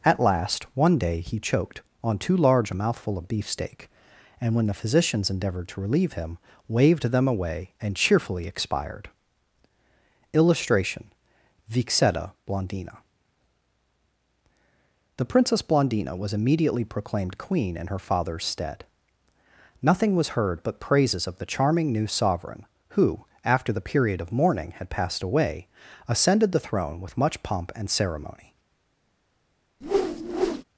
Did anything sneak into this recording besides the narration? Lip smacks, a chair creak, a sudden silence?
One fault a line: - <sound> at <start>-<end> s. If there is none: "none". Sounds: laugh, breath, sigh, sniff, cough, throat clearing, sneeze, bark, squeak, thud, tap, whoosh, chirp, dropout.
- whoosh at 29.8-30.6 s